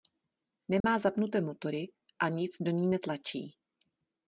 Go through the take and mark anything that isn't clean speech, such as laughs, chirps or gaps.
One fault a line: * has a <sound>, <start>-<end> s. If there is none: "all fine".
* has a dropout, 0.8-0.8 s